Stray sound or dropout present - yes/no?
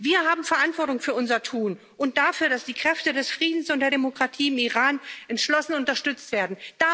no